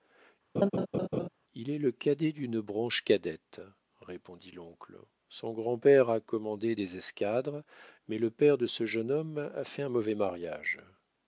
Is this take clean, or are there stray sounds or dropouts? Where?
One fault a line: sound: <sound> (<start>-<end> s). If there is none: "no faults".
sound: laugh (0.6-1.3 s)